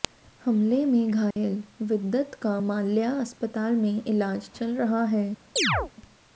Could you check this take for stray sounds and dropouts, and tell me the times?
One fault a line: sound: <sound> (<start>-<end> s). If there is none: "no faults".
sound: dropout (1.3-1.4 s)
sound: chirp (5.6-5.9 s)